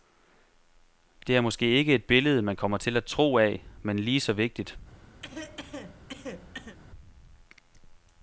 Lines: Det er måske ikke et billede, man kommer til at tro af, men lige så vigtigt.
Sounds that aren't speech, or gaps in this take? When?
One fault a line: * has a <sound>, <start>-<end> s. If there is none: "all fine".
* has a cough, 5.2-6.8 s